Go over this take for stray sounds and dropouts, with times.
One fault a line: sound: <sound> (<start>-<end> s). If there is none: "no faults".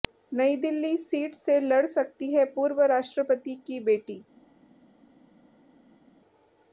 no faults